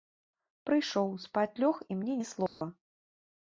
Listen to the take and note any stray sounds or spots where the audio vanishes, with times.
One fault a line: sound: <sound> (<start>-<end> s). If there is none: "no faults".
sound: dropout (2.5-2.6 s)